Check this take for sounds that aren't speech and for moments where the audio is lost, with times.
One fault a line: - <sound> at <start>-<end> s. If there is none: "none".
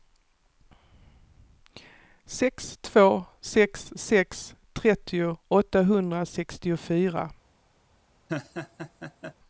- laugh at 8.3-9.3 s